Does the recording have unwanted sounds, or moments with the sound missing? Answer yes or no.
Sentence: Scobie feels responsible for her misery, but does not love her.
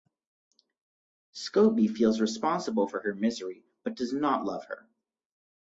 no